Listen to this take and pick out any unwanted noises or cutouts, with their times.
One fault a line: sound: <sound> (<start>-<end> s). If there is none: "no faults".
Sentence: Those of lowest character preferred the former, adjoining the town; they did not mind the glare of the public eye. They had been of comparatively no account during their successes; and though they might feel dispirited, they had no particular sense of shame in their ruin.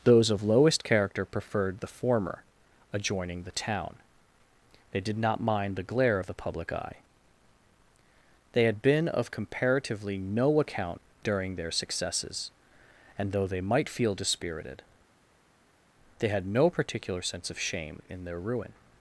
no faults